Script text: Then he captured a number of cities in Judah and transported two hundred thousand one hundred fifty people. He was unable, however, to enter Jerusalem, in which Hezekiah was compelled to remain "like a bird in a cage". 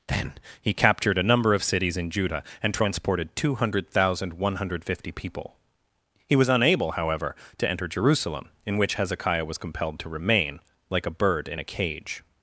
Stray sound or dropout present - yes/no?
no